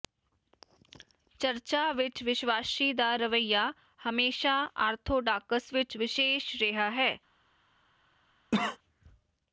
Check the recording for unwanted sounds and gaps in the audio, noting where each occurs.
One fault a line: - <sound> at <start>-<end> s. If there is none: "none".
- cough at 8.5-8.8 s